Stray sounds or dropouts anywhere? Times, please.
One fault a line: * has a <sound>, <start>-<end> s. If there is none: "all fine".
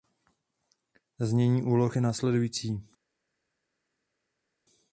all fine